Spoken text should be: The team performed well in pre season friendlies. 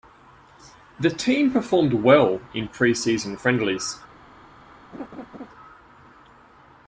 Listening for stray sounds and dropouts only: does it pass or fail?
fail